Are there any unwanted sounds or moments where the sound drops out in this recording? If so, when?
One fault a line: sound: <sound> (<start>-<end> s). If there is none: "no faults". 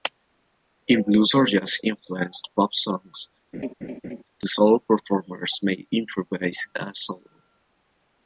sound: laugh (3.5-4.2 s)